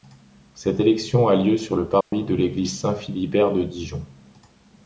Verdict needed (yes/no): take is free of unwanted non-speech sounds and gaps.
no